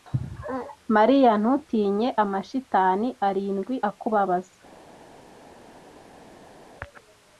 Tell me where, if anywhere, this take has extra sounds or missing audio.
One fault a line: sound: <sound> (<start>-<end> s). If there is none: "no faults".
no faults